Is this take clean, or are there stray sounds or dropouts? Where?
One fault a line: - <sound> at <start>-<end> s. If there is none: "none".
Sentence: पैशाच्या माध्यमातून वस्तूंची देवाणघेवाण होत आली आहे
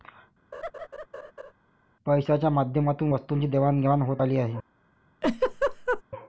- laugh at 0.5-1.5 s
- laugh at 5.2-6.0 s